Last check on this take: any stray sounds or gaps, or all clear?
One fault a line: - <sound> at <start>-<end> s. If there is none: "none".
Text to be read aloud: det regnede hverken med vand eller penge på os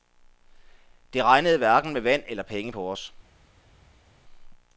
none